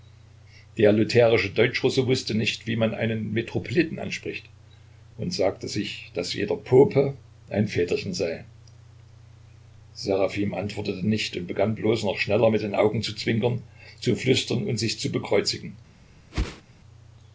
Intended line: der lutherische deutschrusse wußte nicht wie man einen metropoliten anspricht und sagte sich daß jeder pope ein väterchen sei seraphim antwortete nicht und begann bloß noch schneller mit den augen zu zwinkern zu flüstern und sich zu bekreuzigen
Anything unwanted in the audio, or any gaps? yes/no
yes